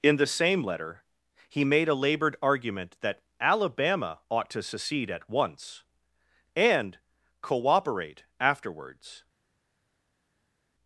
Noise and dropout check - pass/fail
pass